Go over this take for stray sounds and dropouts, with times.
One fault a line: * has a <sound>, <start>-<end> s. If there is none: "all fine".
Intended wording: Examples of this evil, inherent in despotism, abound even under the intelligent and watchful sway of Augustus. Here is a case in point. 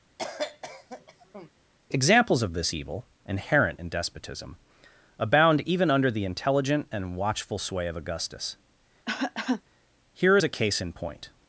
* has a cough, 0.2-1.5 s
* has a cough, 9.1-9.6 s